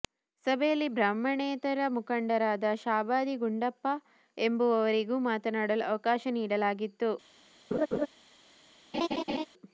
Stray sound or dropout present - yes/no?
yes